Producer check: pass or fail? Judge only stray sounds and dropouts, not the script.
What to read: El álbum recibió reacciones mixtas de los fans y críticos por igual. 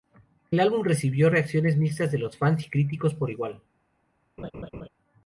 fail